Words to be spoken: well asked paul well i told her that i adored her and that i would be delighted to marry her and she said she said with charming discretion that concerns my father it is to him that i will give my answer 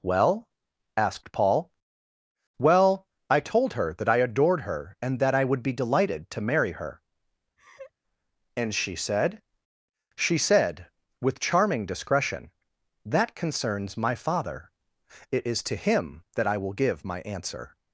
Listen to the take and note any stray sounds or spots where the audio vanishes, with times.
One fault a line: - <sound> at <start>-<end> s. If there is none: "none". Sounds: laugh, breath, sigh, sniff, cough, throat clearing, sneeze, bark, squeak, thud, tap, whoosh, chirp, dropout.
- laugh at 7.6-7.9 s